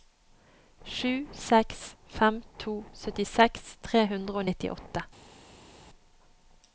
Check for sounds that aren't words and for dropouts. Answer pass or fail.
pass